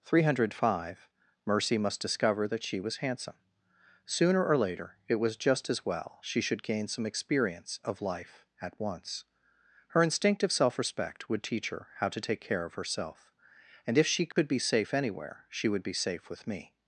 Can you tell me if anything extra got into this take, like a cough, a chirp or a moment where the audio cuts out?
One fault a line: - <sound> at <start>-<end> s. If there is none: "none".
- dropout at 14.3-14.4 s